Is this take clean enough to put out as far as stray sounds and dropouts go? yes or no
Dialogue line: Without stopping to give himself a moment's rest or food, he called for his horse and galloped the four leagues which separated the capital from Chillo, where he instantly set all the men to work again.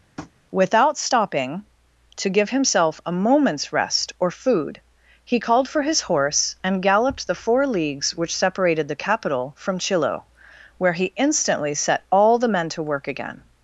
no